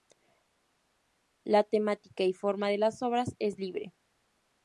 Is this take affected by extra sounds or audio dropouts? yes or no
no